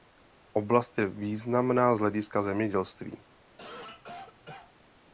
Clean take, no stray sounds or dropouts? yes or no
no